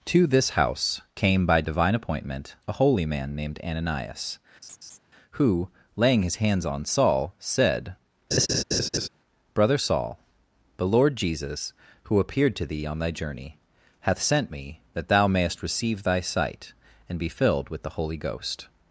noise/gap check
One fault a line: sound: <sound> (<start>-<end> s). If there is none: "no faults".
sound: laugh (4.6-5.0 s)
sound: laugh (8.3-9.1 s)